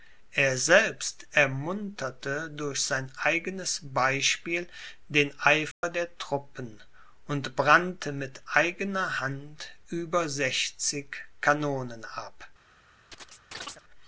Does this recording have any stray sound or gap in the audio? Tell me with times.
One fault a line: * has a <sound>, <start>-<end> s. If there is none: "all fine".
* has a dropout, 5.7-5.8 s
* has a chirp, 13.1-13.8 s